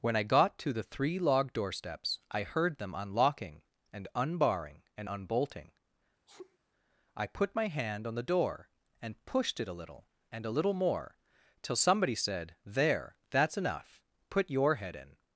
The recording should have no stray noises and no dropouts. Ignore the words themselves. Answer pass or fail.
fail